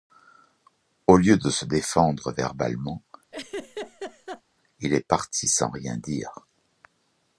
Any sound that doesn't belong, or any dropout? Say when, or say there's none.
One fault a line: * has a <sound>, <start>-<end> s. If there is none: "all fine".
* has a laugh, 3.3-4.4 s